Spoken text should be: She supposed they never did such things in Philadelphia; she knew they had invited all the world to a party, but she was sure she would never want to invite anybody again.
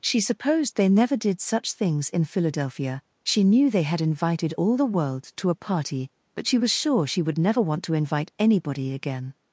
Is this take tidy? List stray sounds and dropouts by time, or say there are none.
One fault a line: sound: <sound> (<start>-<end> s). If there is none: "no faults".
no faults